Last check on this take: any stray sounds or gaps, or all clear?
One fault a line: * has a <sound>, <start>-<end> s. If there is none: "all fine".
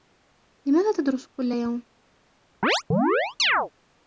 * has a chirp, 2.6-3.7 s